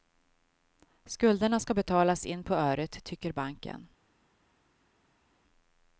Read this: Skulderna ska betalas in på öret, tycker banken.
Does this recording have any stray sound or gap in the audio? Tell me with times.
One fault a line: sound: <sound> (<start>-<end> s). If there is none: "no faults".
no faults